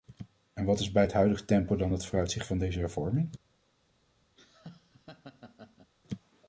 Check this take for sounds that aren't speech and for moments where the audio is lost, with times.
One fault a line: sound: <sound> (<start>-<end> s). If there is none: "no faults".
sound: laugh (4.4-5.9 s)